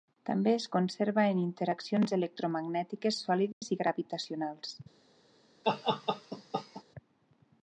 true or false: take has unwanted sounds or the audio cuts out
true